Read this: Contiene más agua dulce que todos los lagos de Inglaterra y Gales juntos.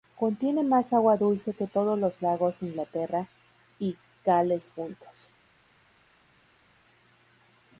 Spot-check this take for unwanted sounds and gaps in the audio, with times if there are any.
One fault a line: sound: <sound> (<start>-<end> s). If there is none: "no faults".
no faults